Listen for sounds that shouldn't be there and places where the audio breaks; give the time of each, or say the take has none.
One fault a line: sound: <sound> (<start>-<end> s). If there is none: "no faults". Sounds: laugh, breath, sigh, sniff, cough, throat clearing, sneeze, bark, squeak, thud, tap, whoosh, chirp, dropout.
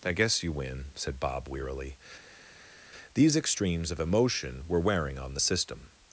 no faults